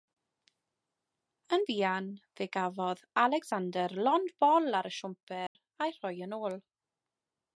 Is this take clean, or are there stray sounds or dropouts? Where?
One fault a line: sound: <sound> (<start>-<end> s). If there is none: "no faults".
sound: dropout (5.5-5.6 s)